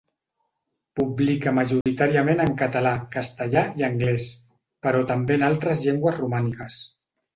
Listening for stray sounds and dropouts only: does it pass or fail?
fail